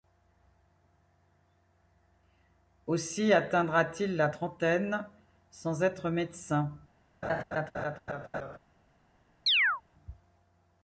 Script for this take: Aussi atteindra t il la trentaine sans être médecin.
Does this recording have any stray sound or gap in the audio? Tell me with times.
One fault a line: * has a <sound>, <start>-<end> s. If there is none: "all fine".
* has a laugh, 7.2-8.6 s
* has a chirp, 9.5-9.8 s